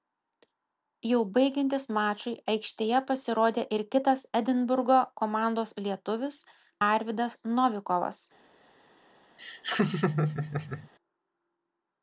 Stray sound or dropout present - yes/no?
yes